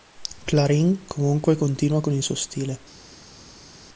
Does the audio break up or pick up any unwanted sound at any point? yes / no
no